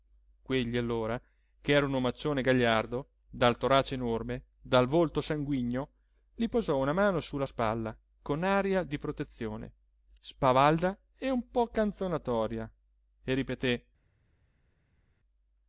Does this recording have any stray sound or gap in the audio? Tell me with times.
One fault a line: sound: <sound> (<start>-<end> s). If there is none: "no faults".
no faults